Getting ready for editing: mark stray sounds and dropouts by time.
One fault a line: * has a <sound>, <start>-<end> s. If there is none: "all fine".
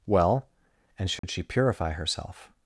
* has a dropout, 1.2-1.2 s